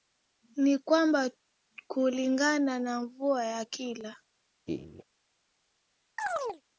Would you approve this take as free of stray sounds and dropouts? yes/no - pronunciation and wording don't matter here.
no